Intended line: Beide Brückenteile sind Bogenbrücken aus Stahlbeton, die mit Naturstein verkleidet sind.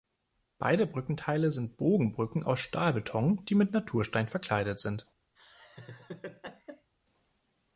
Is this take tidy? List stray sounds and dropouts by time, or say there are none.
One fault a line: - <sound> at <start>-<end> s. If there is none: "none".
- laugh at 5.4-6.9 s